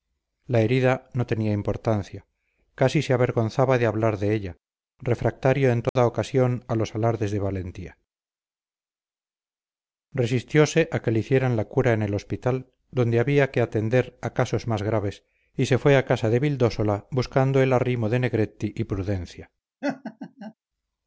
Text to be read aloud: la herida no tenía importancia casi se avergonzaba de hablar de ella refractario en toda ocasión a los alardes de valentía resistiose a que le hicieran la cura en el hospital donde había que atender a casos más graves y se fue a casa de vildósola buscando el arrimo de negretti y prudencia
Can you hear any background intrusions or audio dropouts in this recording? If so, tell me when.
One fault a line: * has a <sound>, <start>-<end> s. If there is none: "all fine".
* has a dropout, 5.9-6.0 s
* has a laugh, 19.8-20.5 s